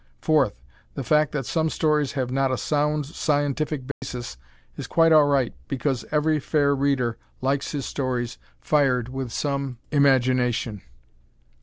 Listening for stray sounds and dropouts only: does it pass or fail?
fail